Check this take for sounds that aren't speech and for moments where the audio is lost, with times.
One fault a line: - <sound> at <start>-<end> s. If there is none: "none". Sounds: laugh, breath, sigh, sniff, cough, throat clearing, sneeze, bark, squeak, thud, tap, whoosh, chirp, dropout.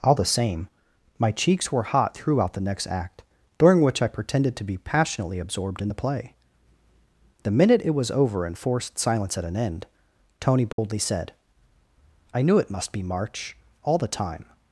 - dropout at 10.7-10.8 s